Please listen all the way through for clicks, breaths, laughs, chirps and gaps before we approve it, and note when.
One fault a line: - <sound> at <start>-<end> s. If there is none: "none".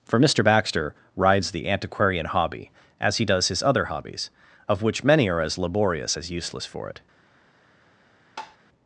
- tap at 8.4-8.6 s